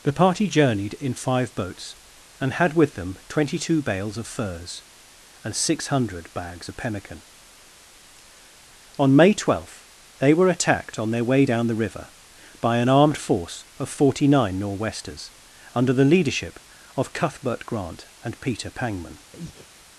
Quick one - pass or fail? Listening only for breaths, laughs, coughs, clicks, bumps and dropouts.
fail